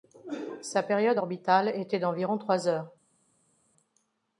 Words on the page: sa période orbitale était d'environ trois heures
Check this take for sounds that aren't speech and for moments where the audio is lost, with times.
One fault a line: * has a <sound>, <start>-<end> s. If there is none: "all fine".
all fine